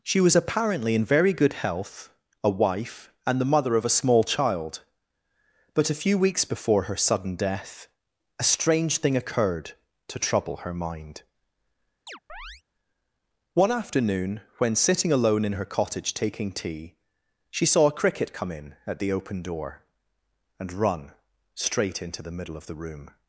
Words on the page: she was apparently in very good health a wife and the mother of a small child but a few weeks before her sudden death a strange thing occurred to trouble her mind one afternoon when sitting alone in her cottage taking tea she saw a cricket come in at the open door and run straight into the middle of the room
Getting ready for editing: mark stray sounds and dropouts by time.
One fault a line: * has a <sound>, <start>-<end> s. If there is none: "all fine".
* has a chirp, 12.1-12.6 s